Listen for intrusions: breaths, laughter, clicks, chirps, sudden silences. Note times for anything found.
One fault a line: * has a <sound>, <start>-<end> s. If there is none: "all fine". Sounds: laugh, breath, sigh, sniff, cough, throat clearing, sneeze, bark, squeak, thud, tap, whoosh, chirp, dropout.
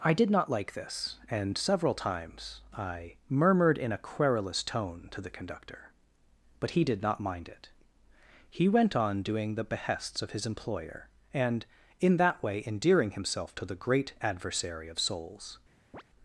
* has a chirp, 15.9-16.0 s